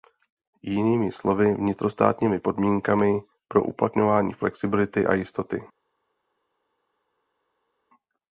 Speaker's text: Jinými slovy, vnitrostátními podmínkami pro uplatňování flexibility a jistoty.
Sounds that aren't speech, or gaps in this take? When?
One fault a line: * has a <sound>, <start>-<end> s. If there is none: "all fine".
all fine